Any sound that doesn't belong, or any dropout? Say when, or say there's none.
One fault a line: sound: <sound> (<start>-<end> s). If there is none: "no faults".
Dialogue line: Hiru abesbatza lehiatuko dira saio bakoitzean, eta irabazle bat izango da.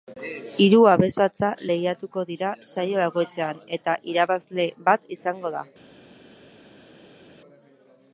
no faults